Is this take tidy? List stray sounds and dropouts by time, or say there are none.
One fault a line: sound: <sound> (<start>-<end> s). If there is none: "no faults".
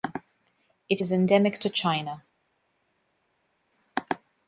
no faults